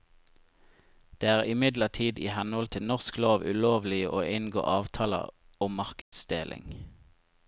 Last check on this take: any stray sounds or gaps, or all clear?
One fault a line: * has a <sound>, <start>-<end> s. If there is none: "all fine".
* has a dropout, 6.0-6.1 s